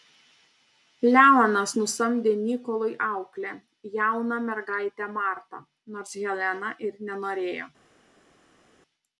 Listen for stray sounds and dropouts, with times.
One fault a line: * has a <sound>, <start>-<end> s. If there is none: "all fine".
all fine